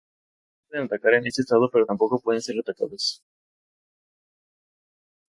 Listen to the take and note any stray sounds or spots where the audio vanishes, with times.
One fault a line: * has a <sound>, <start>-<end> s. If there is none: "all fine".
all fine